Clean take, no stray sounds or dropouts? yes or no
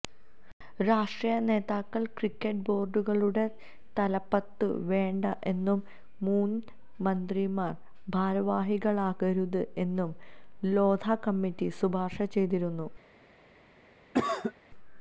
no